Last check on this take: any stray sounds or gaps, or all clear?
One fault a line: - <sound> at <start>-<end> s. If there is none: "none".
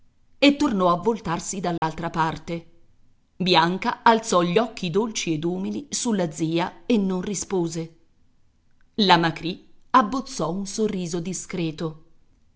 - dropout at 1.8-1.8 s